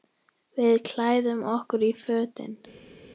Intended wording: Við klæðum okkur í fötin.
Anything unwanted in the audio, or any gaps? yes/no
no